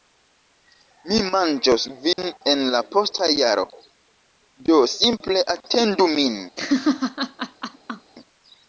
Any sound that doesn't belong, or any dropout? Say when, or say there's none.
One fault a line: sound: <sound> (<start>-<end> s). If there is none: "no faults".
sound: dropout (2.1-2.2 s)
sound: laugh (6.6-8.1 s)